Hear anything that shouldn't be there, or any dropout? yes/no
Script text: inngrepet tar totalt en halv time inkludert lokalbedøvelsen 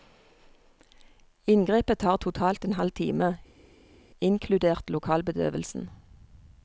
no